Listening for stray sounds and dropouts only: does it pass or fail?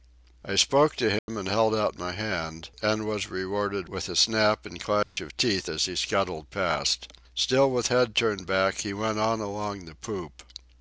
fail